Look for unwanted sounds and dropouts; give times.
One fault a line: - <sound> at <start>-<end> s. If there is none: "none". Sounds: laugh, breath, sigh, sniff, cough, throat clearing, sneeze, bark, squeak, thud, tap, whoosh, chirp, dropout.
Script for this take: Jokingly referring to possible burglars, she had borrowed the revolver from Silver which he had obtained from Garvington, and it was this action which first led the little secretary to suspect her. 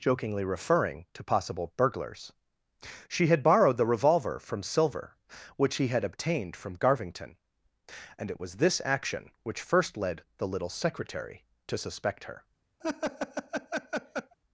- laugh at 12.8-14.3 s